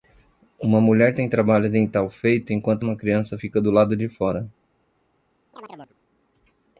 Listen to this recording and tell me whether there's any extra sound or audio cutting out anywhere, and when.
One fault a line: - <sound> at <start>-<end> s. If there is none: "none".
- chirp at 5.5-6.0 s